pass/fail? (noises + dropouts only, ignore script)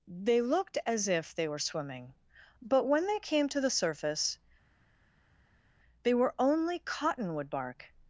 pass